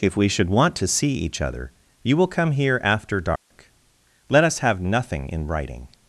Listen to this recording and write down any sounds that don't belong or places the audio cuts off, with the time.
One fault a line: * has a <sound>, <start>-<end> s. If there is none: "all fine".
* has a dropout, 3.4-3.5 s